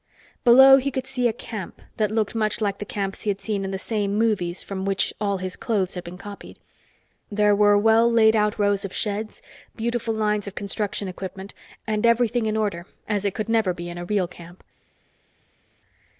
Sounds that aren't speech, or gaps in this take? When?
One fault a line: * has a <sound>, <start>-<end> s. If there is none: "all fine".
all fine